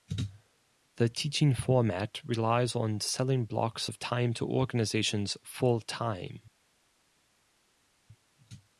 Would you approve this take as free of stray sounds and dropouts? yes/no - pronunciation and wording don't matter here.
yes